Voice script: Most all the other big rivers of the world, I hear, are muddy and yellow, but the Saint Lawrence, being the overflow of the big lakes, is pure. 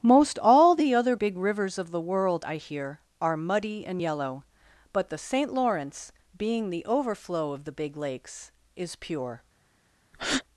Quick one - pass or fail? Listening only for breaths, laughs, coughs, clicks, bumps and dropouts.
fail